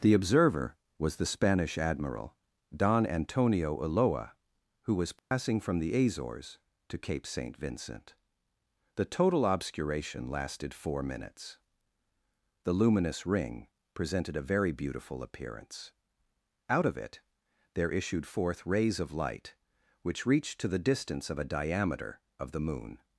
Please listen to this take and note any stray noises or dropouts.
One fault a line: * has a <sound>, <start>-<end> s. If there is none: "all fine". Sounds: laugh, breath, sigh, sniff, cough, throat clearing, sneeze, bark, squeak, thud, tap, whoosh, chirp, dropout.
* has a dropout, 5.2-5.3 s